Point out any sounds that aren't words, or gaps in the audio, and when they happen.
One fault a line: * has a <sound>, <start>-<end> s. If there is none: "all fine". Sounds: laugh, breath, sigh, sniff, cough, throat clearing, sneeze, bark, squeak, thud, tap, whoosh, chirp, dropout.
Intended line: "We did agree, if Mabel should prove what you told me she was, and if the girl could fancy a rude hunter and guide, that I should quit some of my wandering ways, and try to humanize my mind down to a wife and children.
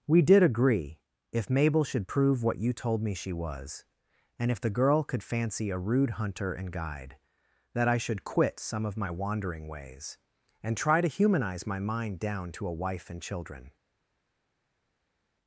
all fine